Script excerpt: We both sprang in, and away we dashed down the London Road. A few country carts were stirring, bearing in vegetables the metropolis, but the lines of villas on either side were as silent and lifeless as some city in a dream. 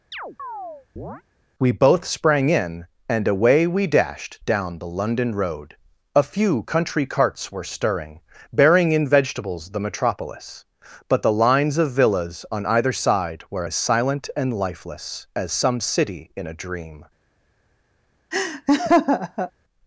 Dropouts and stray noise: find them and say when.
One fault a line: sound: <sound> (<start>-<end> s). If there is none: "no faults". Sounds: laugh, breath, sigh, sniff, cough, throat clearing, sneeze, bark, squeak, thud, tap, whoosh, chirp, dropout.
sound: chirp (0.1-1.2 s)
sound: laugh (18.3-19.5 s)